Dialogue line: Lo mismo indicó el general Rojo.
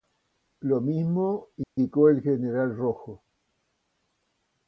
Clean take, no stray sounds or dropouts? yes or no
no